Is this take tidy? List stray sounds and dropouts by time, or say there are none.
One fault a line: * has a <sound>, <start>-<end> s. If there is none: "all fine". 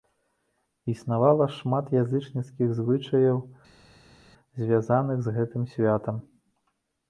all fine